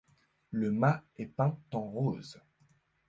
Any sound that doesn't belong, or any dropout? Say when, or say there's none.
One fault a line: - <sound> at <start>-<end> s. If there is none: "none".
none